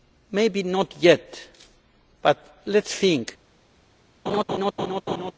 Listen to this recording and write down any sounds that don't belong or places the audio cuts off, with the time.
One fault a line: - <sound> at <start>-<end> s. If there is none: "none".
- laugh at 4.3-5.3 s